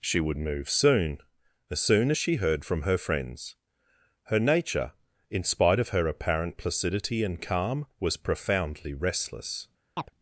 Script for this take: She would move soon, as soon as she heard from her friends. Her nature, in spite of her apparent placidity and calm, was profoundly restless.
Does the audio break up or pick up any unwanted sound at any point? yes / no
yes